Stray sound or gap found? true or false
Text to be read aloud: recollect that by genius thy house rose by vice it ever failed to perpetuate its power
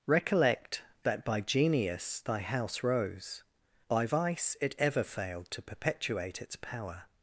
false